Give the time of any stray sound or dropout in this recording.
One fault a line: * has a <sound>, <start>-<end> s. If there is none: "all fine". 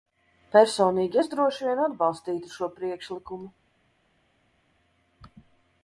all fine